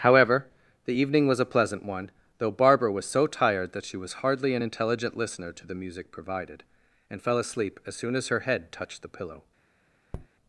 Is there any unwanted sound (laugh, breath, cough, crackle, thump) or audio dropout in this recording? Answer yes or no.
yes